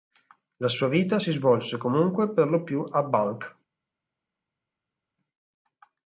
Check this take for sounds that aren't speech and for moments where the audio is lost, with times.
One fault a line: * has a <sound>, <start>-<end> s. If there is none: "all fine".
all fine